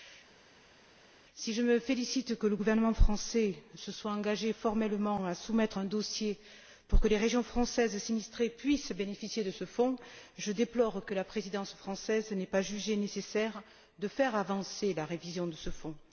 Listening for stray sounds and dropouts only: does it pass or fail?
pass